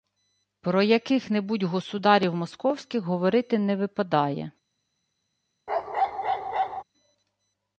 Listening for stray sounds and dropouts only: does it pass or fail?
fail